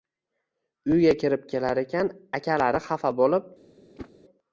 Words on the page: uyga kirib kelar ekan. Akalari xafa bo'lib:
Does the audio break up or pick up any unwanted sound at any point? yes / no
yes